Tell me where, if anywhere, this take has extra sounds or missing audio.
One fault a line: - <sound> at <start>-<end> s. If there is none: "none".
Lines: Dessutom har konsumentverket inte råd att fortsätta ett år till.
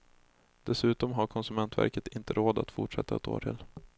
none